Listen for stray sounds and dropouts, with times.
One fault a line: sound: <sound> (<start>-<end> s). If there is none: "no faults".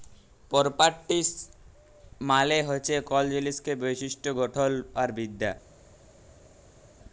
no faults